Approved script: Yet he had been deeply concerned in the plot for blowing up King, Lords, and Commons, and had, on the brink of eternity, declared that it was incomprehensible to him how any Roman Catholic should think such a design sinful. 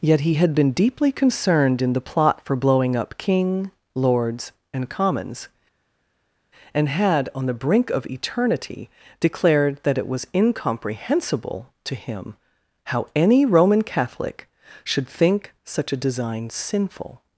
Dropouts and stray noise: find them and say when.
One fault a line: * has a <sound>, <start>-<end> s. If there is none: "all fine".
all fine